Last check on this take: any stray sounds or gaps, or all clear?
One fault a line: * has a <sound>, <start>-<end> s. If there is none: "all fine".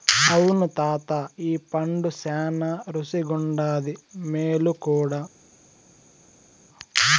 all fine